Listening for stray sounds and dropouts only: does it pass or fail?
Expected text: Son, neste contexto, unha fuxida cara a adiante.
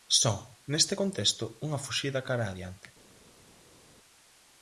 pass